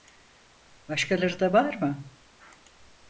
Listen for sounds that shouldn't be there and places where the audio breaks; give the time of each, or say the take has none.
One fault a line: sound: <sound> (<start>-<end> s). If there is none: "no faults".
no faults